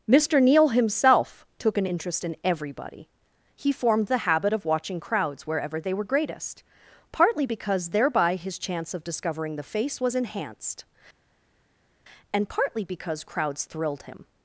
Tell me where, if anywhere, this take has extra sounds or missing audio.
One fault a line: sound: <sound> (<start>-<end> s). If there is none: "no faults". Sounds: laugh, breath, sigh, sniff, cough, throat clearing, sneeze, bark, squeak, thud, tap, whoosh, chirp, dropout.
no faults